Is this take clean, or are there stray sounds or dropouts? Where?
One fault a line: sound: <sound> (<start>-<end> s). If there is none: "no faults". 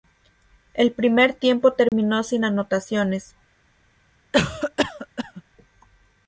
sound: dropout (1.9-1.9 s)
sound: cough (4.3-5.4 s)